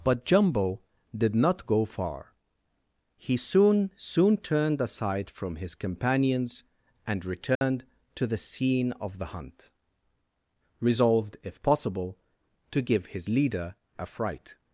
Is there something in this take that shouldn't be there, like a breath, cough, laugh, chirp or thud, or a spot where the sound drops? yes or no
yes